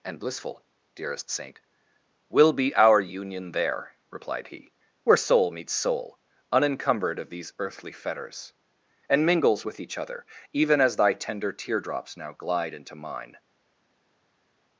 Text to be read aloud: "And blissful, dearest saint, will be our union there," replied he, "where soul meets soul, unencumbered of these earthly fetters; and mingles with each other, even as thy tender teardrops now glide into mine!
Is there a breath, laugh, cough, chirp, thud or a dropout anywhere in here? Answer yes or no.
no